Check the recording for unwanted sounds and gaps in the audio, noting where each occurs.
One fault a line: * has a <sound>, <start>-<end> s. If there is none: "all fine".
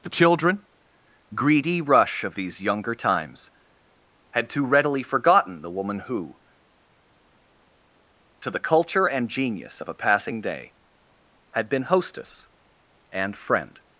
all fine